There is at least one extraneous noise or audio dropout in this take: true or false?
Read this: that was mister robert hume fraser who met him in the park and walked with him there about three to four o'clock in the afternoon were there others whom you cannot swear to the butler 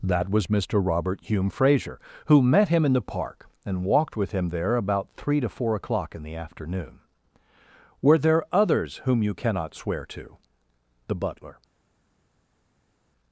false